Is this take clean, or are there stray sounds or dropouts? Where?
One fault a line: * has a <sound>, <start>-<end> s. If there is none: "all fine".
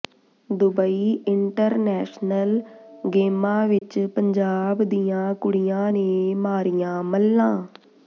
* has a dropout, 3.8-3.8 s